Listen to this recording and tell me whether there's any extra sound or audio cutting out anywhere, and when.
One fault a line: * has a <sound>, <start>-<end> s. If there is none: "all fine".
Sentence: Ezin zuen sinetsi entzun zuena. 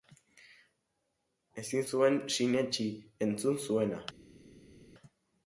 all fine